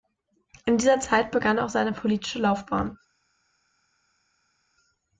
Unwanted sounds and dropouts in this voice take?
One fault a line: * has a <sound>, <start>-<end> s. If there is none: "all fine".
all fine